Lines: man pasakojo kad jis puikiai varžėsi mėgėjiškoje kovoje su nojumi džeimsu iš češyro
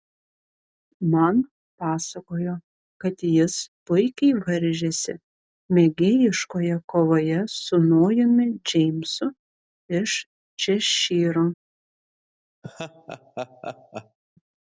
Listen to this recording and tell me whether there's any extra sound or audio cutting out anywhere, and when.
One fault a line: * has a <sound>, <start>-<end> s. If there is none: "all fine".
* has a laugh, 12.6-14.2 s